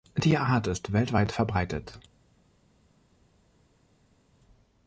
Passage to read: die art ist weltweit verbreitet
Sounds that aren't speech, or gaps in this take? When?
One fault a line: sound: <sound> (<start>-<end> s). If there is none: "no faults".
no faults